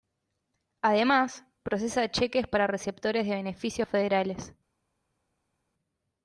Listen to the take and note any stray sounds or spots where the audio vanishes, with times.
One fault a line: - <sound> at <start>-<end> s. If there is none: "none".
none